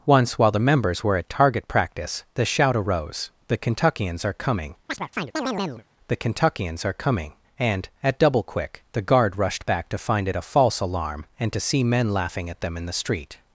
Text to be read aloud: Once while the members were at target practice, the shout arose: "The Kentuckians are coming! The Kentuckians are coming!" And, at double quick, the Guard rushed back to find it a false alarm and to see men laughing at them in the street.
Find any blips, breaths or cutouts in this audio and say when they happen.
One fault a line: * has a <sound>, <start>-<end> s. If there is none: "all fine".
* has a chirp, 4.9-5.8 s